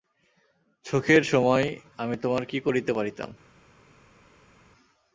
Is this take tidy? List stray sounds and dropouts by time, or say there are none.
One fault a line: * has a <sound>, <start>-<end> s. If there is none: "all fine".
all fine